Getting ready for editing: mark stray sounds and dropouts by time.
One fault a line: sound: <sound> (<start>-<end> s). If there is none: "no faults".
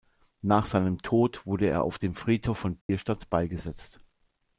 sound: dropout (2.8-2.9 s)